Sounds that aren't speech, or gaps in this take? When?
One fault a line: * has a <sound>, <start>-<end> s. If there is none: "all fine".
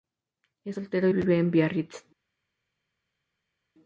all fine